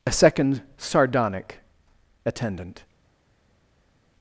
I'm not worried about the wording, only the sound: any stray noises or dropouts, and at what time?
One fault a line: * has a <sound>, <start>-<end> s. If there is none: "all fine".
all fine